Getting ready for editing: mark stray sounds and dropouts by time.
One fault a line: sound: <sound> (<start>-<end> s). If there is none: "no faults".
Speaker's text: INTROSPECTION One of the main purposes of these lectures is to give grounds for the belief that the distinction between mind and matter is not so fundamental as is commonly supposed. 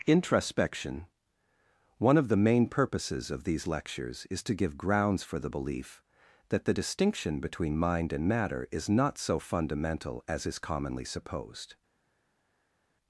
no faults